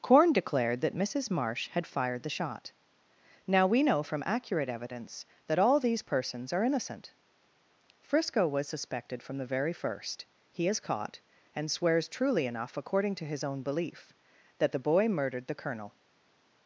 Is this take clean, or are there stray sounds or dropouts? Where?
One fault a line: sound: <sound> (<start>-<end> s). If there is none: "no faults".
no faults